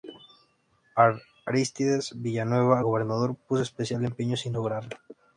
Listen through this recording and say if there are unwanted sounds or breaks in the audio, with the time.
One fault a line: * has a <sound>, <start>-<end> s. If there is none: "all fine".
all fine